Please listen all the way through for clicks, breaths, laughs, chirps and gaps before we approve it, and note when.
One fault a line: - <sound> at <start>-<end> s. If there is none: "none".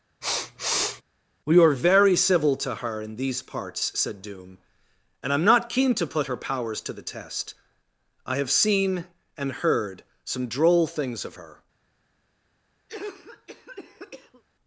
- sniff at 0.2-1.0 s
- cough at 12.9-14.4 s